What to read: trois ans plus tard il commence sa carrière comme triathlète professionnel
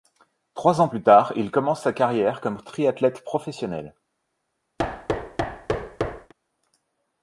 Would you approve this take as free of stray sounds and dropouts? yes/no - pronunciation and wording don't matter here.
no